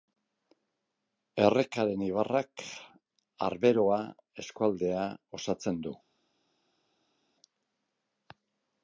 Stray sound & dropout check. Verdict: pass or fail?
pass